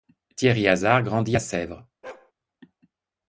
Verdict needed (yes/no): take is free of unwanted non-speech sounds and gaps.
no